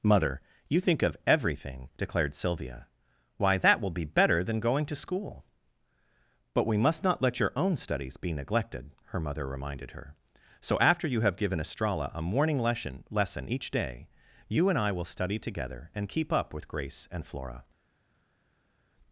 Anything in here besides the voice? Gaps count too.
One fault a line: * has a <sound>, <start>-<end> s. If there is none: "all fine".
all fine